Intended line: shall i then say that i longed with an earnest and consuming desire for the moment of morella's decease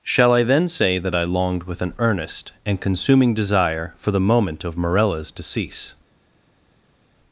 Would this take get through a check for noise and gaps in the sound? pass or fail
pass